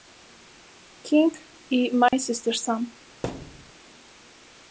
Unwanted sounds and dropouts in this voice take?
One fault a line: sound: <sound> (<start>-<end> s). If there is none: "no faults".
sound: dropout (2.1-2.1 s)
sound: thud (3.2-3.7 s)